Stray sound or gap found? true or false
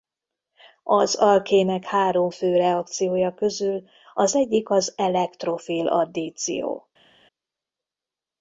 false